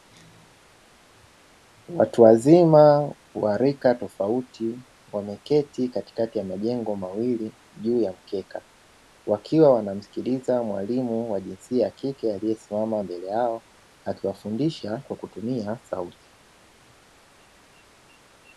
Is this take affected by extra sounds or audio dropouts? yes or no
no